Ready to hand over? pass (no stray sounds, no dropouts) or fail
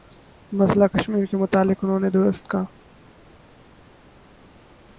pass